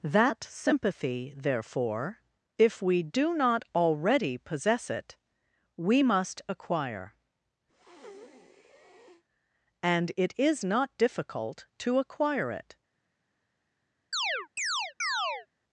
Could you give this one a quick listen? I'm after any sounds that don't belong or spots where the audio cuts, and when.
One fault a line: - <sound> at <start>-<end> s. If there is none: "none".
- breath at 7.7-9.2 s
- chirp at 14.1-15.5 s